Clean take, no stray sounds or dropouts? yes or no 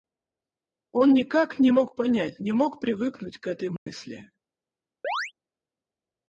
no